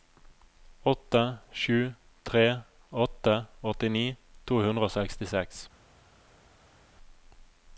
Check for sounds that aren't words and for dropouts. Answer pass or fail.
pass